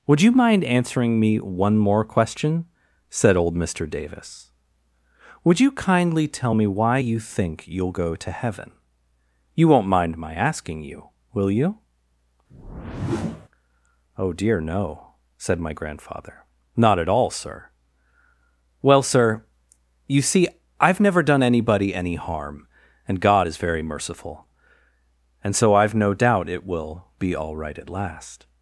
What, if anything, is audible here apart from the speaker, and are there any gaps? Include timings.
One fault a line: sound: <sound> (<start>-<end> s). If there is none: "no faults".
sound: whoosh (12.5-13.5 s)